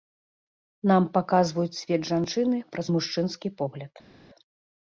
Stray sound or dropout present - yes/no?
no